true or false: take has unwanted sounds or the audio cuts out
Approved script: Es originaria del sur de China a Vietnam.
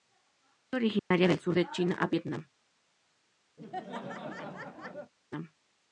true